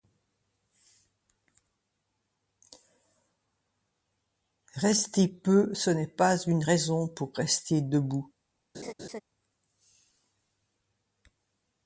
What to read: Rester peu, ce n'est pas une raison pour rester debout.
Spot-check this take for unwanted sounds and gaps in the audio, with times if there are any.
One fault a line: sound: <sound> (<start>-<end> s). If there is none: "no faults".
sound: laugh (8.7-9.2 s)